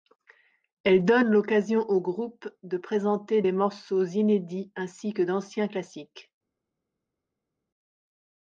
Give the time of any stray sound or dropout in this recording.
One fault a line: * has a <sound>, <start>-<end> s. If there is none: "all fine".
all fine